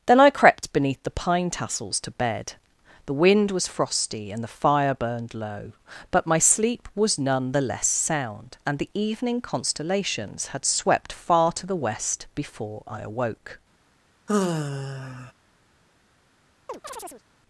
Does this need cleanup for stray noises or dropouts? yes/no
yes